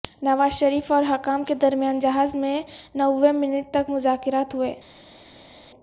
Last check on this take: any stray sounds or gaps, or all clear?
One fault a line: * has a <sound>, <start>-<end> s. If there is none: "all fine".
all fine